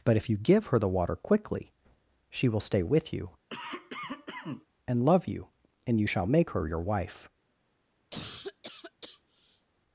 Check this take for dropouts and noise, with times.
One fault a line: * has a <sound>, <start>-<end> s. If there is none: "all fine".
* has a cough, 3.5-4.7 s
* has a cough, 8.1-9.7 s